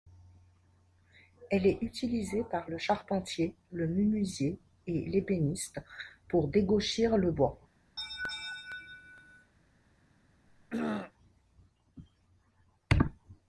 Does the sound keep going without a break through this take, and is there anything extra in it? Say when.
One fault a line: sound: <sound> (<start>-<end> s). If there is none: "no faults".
sound: laugh (8.0-9.5 s)
sound: throat clearing (10.5-11.1 s)